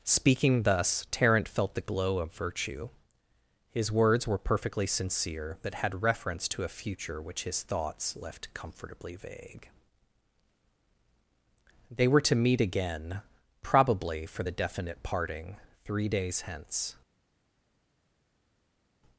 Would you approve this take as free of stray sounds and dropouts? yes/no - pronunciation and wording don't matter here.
yes